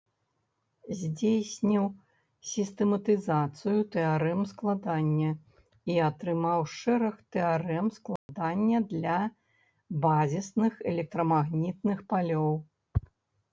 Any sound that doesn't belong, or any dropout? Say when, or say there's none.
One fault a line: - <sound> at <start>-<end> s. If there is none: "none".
- dropout at 8.2-8.3 s